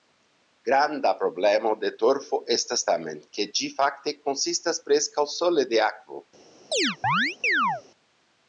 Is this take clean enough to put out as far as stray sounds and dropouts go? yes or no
no